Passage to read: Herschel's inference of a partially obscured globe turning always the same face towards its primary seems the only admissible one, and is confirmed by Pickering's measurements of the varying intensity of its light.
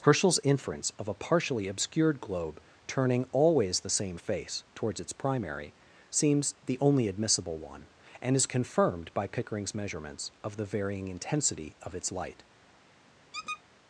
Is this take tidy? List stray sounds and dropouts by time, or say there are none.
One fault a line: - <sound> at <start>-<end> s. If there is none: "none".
- squeak at 13.3-13.6 s